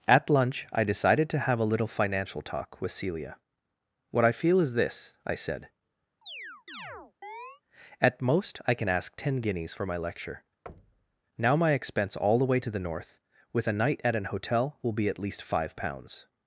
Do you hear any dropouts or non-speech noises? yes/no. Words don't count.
yes